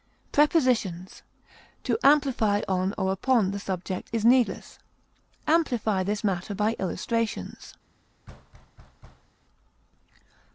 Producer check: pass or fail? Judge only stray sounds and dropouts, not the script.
fail